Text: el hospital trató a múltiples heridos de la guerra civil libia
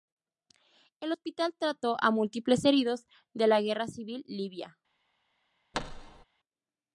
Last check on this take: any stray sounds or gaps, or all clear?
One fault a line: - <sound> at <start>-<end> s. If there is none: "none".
- thud at 5.7-6.2 s